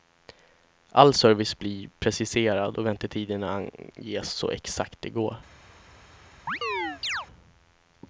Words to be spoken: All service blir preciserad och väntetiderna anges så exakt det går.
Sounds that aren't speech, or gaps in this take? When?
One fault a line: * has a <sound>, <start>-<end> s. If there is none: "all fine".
* has a chirp, 6.5-7.3 s